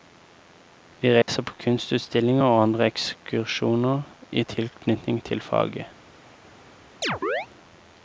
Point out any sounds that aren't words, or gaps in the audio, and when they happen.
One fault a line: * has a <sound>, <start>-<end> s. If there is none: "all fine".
* has a dropout, 1.2-1.3 s
* has a chirp, 7.0-7.5 s